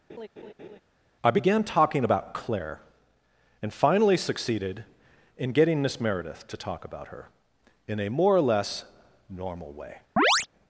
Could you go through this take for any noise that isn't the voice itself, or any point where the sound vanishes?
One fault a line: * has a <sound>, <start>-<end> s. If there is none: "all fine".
* has a laugh, 0.1-0.8 s
* has a chirp, 10.2-10.5 s